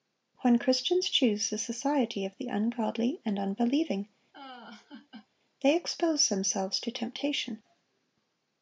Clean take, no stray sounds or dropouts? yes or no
no